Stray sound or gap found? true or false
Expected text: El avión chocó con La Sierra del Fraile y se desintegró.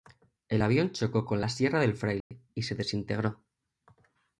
true